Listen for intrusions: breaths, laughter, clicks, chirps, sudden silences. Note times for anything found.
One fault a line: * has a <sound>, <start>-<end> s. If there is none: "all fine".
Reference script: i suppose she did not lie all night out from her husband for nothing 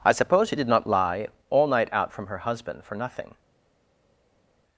all fine